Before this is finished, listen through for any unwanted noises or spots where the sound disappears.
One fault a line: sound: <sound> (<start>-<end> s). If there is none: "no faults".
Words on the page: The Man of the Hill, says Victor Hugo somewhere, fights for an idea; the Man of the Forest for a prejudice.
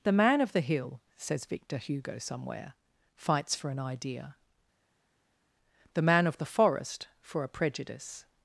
no faults